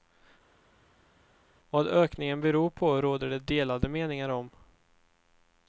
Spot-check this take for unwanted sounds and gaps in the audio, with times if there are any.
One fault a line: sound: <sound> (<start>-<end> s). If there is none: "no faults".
no faults